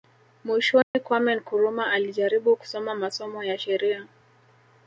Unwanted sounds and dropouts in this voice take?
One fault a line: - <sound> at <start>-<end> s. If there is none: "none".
- dropout at 0.8-0.9 s